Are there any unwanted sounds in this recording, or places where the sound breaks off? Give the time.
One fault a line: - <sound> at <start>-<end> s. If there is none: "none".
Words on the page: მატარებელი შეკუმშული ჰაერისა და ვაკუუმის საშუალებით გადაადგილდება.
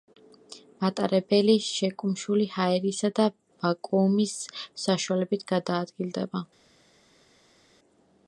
none